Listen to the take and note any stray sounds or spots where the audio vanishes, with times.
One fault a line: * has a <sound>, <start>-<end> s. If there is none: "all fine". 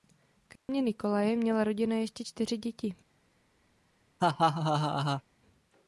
* has a dropout, 0.6-0.7 s
* has a laugh, 4.2-5.2 s